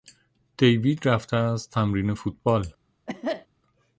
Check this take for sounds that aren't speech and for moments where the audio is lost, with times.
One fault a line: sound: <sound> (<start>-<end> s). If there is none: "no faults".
sound: cough (3.1-3.5 s)